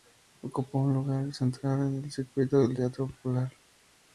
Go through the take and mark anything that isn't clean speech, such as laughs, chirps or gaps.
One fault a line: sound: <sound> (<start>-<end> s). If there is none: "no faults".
no faults